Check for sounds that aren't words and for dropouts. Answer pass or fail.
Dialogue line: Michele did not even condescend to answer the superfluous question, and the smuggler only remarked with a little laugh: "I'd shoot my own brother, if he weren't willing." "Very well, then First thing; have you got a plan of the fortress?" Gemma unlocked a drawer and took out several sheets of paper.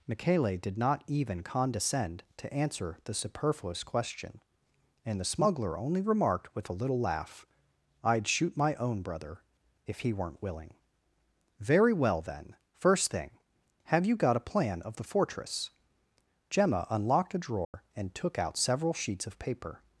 fail